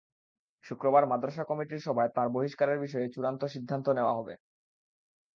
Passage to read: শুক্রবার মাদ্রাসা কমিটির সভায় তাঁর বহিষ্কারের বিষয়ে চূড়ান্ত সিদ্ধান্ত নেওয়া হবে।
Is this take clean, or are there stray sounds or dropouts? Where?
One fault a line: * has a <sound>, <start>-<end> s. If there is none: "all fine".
all fine